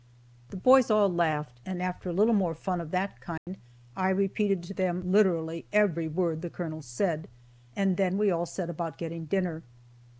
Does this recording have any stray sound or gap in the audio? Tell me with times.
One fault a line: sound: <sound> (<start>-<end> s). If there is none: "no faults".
sound: dropout (3.4-3.5 s)